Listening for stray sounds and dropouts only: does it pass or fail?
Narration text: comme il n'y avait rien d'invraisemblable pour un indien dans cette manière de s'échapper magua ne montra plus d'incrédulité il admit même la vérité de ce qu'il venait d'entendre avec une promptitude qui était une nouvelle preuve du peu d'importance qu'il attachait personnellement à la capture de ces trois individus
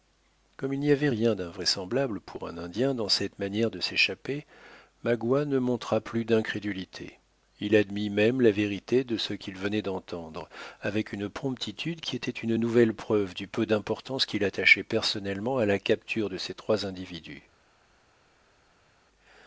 pass